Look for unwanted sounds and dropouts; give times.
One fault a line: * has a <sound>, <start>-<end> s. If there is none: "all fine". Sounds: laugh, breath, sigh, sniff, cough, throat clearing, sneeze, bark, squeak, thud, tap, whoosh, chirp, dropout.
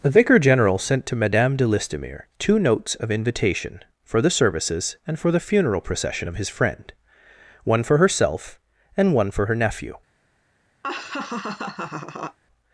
* has a laugh, 10.8-12.4 s